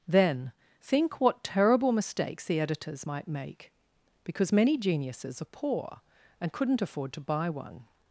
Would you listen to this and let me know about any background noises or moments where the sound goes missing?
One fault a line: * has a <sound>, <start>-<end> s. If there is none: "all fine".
all fine